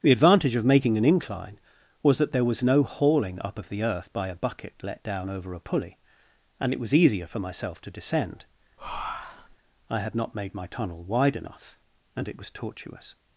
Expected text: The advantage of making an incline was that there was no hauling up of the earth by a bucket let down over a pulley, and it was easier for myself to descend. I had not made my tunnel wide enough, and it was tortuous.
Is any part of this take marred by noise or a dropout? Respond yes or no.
yes